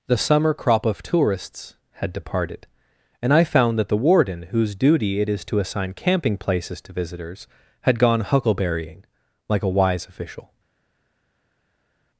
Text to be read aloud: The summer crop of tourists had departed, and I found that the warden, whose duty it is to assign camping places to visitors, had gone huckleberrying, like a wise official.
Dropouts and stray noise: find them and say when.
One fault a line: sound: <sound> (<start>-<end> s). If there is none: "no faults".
no faults